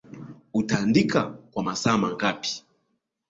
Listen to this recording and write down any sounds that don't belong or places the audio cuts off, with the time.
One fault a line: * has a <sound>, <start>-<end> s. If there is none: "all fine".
all fine